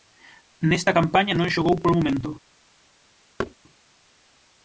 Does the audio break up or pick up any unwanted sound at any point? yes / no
yes